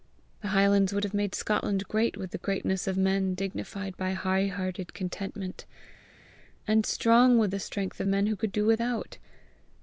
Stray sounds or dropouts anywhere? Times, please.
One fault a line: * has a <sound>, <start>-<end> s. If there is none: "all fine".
all fine